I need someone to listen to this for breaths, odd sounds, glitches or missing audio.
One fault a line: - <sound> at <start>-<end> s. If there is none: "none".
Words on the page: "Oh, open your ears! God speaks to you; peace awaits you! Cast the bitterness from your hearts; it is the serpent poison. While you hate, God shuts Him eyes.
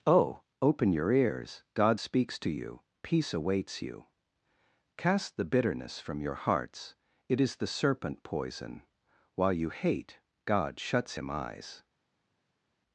none